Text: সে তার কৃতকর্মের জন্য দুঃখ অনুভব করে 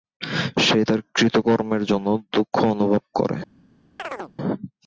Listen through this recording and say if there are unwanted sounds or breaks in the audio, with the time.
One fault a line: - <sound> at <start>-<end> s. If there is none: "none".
- chirp at 4.0-4.3 s